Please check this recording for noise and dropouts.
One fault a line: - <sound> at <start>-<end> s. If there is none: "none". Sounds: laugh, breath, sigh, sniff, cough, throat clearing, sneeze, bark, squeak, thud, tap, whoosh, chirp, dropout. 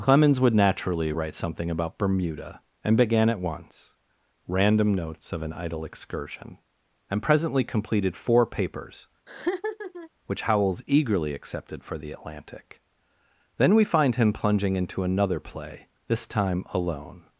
- laugh at 9.3-10.1 s